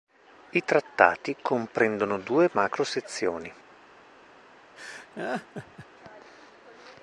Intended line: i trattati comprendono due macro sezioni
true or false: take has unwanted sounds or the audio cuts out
true